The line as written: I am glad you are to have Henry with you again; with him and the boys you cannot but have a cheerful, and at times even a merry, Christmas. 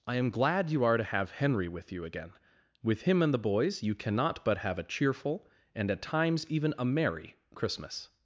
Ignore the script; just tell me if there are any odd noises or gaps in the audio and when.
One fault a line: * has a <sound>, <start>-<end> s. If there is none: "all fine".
all fine